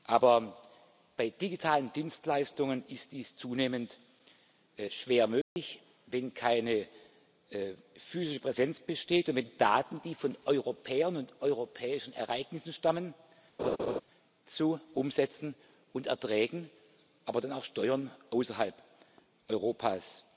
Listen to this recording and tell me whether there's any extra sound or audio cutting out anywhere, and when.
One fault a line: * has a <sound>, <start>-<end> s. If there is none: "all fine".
* has a dropout, 5.4-5.6 s
* has a laugh, 13.6-14.0 s